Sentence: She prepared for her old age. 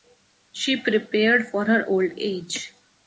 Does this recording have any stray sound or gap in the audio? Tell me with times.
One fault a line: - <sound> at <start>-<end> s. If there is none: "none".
none